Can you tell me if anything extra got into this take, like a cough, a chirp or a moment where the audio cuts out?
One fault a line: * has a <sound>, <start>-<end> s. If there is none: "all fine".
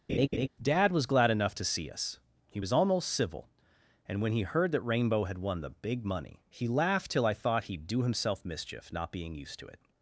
* has a laugh, 0.1-0.5 s